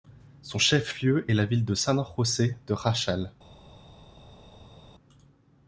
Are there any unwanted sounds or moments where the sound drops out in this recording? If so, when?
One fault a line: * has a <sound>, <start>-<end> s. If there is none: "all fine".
all fine